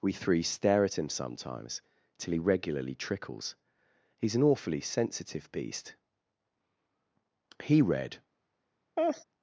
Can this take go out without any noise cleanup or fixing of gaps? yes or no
no